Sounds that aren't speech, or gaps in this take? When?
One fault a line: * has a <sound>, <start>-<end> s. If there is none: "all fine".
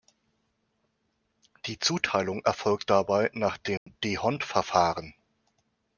* has a dropout, 3.8-3.9 s